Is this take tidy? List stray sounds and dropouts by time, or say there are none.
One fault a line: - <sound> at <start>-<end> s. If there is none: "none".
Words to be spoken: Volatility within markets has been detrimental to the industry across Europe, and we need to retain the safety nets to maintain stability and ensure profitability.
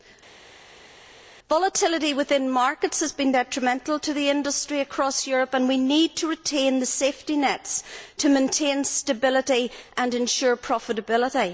none